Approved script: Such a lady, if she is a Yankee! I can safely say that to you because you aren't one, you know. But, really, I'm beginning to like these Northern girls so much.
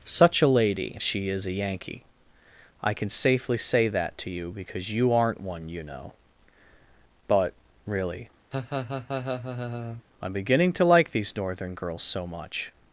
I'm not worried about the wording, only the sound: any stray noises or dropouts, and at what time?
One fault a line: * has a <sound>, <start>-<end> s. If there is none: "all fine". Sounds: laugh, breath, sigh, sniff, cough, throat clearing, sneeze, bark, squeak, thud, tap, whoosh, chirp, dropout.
* has a laugh, 8.5-10.0 s